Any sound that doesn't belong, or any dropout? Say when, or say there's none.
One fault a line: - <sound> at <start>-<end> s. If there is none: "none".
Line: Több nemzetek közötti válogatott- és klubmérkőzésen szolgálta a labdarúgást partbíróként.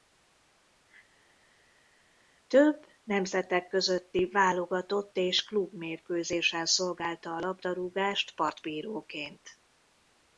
none